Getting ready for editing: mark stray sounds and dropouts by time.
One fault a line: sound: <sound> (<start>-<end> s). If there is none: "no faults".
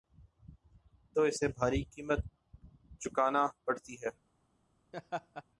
sound: laugh (4.9-5.4 s)